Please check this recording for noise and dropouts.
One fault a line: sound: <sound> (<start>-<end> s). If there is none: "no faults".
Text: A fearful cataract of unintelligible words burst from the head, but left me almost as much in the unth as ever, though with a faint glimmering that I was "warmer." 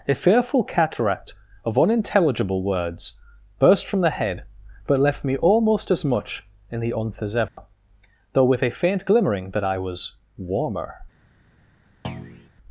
sound: dropout (7.5-7.6 s)
sound: thud (12.0-12.5 s)